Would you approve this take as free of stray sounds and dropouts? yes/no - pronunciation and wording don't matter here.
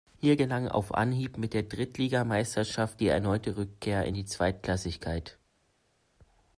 yes